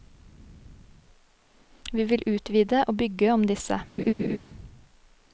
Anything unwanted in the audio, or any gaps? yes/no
yes